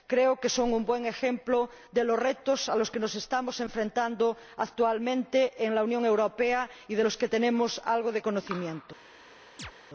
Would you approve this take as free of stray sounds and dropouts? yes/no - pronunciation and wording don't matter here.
no